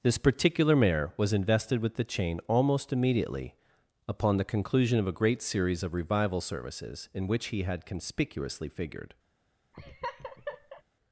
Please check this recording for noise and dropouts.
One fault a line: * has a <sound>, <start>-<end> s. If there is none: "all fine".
* has a laugh, 9.7-10.8 s